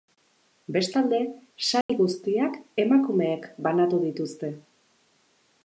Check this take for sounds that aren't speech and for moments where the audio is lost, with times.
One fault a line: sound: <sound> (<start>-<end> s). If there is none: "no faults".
sound: dropout (1.8-1.9 s)